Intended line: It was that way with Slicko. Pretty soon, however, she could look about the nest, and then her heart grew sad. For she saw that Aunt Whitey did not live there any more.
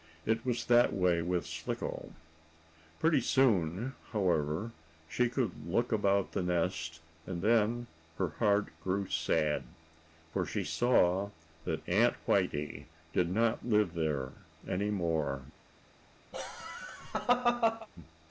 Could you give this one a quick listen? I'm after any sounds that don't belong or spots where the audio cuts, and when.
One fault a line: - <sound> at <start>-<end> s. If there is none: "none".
- laugh at 16.3-17.9 s